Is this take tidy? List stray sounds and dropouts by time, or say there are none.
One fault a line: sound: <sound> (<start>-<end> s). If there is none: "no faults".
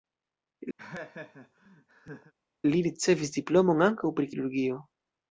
sound: laugh (0.8-2.3 s)